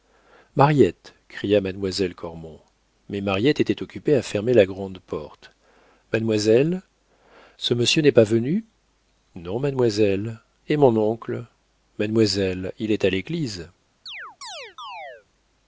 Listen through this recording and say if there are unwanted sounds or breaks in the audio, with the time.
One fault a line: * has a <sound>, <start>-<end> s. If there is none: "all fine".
* has a chirp, 14.1-15.3 s